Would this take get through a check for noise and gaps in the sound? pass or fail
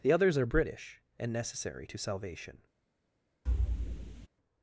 fail